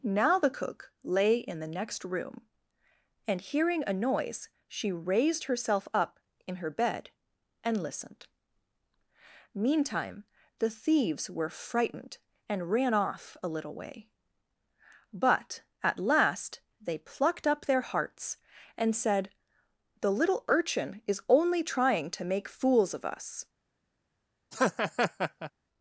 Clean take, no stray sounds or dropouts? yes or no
no